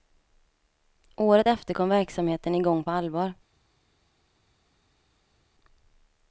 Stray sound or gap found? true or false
false